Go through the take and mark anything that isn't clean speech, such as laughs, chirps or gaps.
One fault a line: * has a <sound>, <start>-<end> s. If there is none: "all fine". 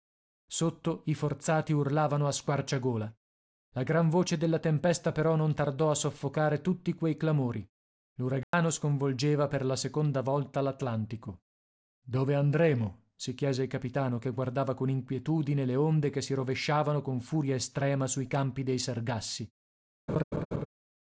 * has a dropout, 8.4-8.5 s
* has a laugh, 20.1-20.7 s